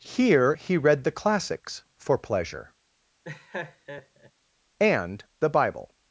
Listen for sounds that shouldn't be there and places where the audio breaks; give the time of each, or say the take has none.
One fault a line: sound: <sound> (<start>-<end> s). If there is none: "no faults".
sound: laugh (3.2-4.3 s)